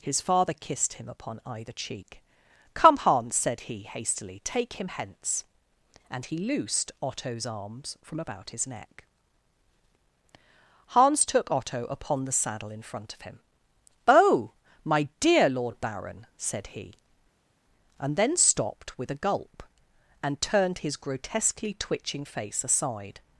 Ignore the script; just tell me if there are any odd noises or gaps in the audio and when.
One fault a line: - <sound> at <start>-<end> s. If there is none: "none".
none